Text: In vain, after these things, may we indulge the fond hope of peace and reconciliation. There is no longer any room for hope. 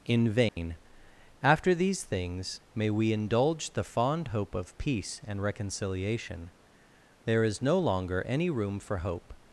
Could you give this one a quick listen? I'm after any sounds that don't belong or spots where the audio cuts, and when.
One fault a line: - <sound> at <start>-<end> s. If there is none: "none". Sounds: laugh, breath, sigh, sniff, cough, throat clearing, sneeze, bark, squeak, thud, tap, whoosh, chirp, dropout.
- dropout at 0.5-0.6 s